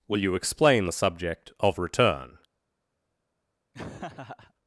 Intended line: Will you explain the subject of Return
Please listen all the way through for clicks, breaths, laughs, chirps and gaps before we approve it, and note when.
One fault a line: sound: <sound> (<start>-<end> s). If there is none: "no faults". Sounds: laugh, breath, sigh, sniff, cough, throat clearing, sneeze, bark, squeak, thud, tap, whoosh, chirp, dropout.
sound: laugh (3.7-4.5 s)